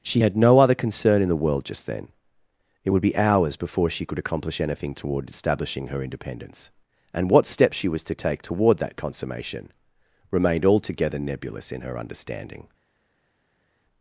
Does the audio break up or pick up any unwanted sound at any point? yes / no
no